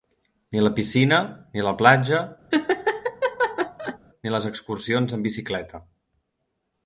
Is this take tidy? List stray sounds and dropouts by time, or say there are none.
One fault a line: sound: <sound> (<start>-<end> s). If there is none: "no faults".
sound: laugh (2.5-4.0 s)